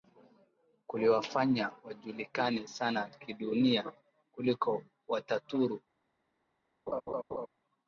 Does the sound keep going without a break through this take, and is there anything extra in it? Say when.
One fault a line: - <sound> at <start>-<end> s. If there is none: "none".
- laugh at 6.9-7.5 s